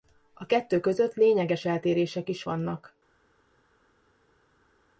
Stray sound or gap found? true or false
false